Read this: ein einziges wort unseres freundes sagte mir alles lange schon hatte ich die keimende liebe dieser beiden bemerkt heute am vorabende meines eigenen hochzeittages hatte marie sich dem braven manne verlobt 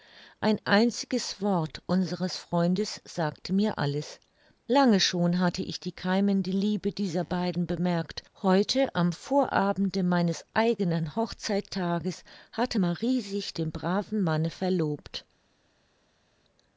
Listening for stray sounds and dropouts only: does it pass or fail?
pass